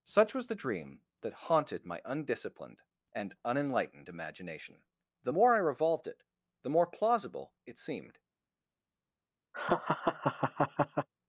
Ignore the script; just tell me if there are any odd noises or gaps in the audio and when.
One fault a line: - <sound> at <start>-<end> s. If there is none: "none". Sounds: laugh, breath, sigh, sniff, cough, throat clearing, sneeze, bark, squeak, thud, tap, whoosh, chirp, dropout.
- laugh at 9.5-11.1 s